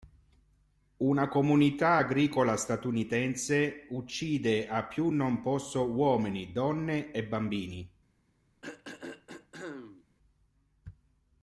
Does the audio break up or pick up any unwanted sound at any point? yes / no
yes